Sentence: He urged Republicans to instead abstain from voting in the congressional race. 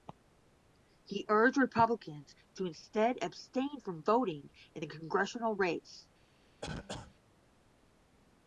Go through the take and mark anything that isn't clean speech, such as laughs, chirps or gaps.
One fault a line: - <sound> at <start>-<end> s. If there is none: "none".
- cough at 6.6-7.2 s